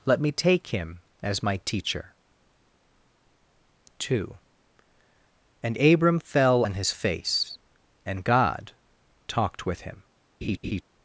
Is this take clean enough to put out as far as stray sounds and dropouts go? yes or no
no